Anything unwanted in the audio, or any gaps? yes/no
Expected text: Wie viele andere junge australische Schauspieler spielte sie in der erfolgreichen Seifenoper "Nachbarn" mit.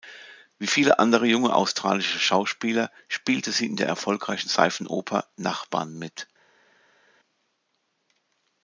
no